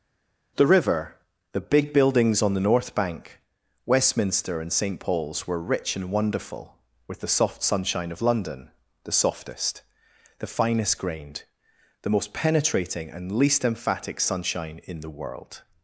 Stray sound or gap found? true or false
false